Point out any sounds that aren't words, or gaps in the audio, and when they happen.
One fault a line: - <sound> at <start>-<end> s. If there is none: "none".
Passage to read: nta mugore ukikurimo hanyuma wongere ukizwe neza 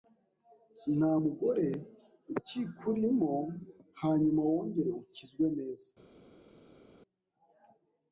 none